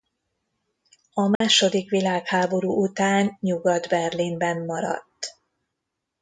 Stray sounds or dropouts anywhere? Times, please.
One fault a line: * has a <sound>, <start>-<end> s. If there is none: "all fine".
* has a dropout, 1.4-1.4 s